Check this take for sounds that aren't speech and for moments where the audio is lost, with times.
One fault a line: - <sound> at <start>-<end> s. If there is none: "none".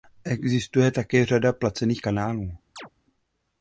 - chirp at 2.8-2.9 s